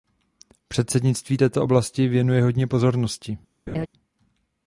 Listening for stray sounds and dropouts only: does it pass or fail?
fail